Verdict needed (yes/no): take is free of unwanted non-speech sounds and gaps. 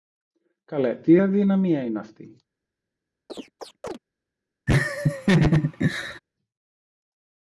no